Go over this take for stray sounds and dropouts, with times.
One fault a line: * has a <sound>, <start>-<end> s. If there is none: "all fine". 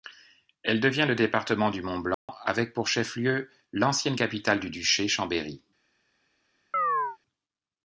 * has a dropout, 2.1-2.3 s
* has a chirp, 6.7-7.2 s